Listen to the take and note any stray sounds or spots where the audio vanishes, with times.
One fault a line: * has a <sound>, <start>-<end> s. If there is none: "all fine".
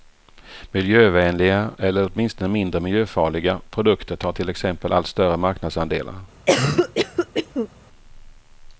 * has a cough, 6.5-7.7 s